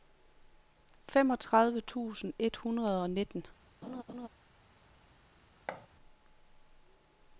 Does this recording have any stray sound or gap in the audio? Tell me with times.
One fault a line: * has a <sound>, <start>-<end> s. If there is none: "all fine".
* has a laugh, 3.8-4.3 s
* has a thud, 5.7-5.9 s